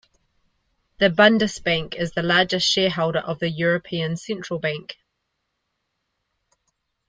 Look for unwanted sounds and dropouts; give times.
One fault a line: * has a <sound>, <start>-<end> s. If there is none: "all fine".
all fine